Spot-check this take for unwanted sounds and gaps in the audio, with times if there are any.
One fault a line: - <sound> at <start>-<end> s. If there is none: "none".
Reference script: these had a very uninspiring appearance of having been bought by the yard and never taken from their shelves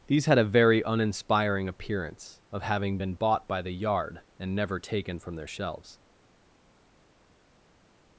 none